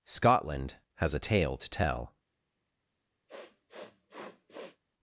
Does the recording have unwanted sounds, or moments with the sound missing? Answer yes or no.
yes